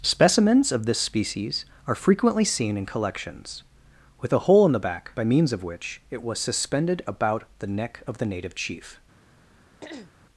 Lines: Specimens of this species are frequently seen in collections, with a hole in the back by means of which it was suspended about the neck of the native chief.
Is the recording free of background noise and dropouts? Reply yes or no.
no